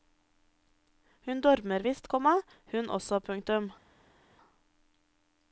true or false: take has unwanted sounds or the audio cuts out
false